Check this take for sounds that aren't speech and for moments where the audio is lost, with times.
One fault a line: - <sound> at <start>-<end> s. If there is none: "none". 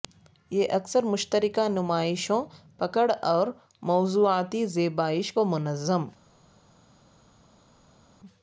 none